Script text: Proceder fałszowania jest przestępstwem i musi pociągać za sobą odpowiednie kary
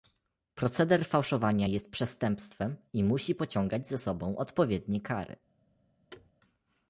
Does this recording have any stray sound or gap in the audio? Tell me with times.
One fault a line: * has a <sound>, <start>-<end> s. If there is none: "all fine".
* has a thud, 6.1-6.3 s